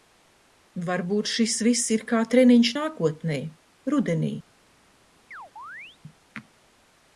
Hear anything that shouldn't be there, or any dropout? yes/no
yes